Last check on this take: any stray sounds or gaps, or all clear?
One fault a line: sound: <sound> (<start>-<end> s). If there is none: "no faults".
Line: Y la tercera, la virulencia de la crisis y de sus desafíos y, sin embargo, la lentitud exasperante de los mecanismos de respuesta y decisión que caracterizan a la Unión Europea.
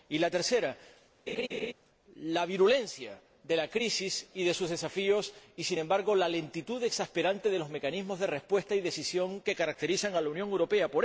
sound: laugh (1.3-1.7 s)